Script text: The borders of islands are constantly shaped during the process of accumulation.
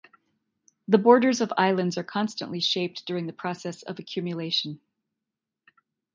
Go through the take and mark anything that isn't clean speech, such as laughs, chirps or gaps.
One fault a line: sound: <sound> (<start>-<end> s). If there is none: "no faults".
no faults